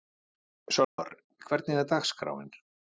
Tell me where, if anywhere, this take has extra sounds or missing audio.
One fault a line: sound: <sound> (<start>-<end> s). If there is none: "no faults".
sound: dropout (0.8-1.0 s)